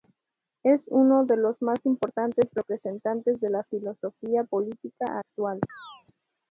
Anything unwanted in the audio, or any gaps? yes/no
yes